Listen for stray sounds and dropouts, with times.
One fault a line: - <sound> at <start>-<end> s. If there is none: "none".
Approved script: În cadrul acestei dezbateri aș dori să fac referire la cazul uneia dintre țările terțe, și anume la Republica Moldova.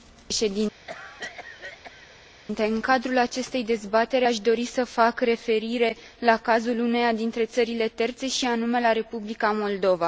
- cough at 0.9-2.2 s